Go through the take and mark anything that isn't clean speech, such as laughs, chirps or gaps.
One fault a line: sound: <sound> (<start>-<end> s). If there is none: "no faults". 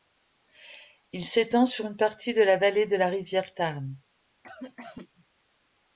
sound: cough (4.4-5.3 s)